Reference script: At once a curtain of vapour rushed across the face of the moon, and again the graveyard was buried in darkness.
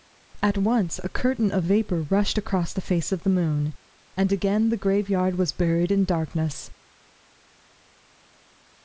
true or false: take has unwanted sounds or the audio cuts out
false